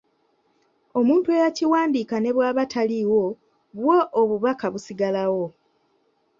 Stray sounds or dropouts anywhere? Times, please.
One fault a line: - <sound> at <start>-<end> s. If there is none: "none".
none